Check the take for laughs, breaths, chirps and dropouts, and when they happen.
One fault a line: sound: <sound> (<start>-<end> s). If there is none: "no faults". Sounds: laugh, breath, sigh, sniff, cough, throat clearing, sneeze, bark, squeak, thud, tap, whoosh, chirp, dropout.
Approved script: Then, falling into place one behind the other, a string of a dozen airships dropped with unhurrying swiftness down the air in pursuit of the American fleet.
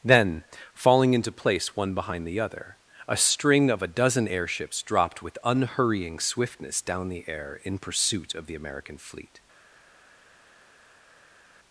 no faults